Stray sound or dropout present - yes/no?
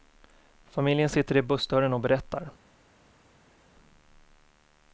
no